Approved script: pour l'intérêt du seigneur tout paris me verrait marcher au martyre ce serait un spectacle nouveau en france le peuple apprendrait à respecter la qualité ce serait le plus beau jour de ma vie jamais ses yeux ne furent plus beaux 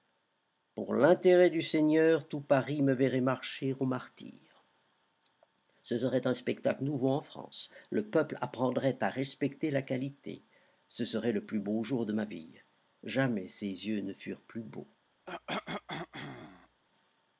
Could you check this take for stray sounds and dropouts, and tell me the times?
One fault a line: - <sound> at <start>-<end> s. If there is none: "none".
- cough at 15.3-16.8 s